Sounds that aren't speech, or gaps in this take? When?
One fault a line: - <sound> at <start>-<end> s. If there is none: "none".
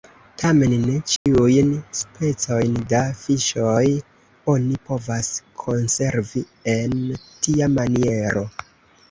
- dropout at 1.2-1.3 s